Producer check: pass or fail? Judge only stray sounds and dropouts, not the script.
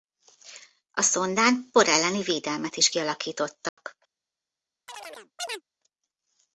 fail